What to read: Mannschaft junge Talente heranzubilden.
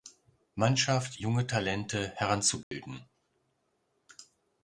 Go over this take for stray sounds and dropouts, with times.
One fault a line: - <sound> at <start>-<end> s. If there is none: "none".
- dropout at 2.6-2.7 s